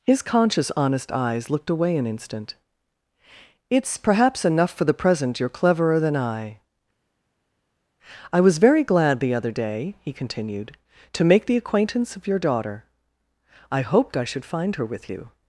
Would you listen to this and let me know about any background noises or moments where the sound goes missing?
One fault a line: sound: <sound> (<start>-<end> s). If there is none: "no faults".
no faults